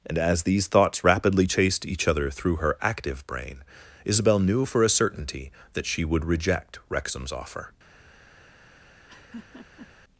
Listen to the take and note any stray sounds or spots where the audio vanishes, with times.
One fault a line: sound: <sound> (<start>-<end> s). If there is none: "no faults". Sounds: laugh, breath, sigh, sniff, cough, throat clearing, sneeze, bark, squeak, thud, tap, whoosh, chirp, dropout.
sound: laugh (9.1-9.9 s)